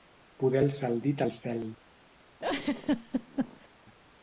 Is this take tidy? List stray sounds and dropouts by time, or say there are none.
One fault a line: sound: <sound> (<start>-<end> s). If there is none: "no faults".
sound: laugh (2.4-3.7 s)